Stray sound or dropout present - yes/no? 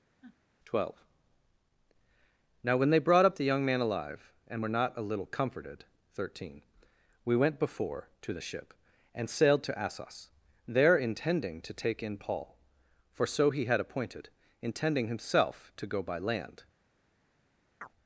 yes